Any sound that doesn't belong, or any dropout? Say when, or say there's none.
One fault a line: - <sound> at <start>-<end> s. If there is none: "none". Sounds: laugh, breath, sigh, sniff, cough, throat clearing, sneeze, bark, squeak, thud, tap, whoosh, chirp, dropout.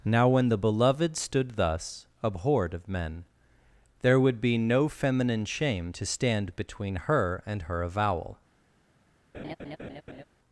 - laugh at 9.3-10.2 s